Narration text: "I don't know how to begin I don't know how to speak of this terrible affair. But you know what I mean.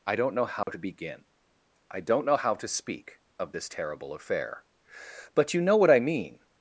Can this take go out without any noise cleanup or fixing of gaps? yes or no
no